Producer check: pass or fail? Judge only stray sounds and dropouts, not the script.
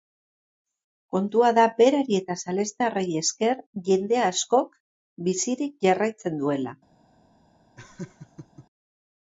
fail